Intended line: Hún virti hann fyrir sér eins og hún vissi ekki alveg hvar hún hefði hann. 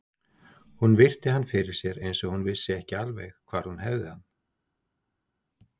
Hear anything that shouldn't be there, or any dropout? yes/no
no